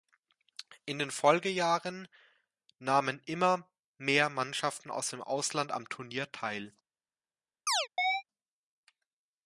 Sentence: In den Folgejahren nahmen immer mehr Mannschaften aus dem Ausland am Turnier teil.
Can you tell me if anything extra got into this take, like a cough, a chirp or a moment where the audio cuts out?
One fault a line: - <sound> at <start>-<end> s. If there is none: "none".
- chirp at 7.7-8.2 s